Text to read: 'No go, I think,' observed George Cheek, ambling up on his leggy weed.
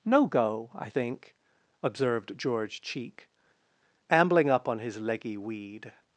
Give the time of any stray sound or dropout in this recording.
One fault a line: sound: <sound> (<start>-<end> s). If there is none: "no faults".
no faults